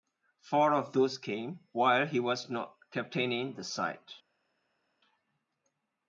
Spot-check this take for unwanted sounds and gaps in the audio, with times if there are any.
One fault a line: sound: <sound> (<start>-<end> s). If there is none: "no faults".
no faults